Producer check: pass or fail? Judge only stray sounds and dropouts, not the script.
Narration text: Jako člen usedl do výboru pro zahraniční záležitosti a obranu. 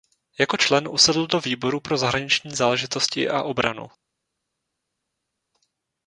pass